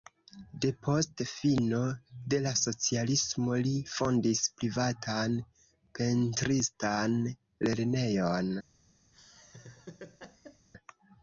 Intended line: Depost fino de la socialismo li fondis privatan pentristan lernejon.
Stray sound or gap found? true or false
true